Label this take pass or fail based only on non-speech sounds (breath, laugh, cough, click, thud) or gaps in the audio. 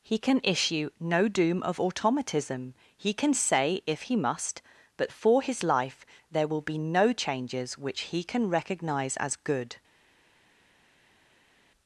pass